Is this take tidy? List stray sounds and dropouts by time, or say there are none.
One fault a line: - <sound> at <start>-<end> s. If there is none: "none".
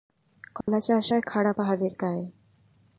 - dropout at 0.6-0.7 s